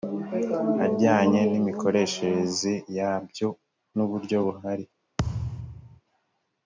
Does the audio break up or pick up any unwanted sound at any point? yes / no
yes